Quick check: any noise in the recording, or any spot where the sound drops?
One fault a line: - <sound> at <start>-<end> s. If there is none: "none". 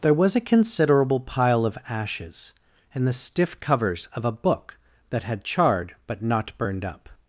none